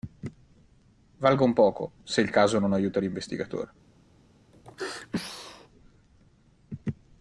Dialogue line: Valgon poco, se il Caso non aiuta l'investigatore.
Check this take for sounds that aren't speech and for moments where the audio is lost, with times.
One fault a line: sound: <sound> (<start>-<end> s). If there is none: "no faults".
sound: sneeze (4.5-5.7 s)